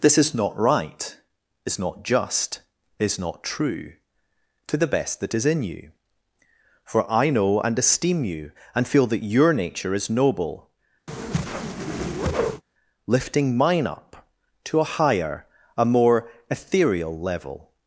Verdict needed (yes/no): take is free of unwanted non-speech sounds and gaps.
no